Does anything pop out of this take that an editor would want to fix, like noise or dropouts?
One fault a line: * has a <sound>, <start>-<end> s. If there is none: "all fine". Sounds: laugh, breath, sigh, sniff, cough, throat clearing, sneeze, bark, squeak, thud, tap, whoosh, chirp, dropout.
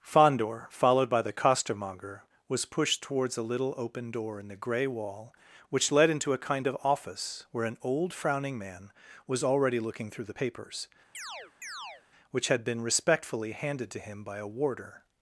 * has a chirp, 11.1-12.0 s